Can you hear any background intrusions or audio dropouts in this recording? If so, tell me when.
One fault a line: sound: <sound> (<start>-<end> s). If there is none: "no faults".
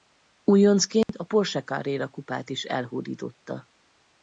sound: dropout (1.0-1.1 s)